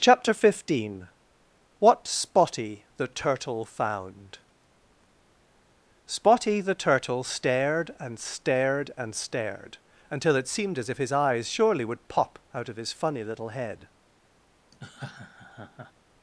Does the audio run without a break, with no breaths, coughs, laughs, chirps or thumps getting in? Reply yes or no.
no